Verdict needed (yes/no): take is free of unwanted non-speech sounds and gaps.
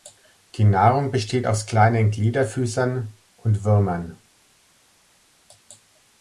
yes